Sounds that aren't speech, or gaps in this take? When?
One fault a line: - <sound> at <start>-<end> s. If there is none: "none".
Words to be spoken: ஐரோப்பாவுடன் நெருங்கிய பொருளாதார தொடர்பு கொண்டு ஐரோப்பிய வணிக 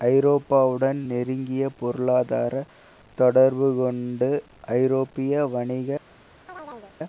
- chirp at 6.5-7.0 s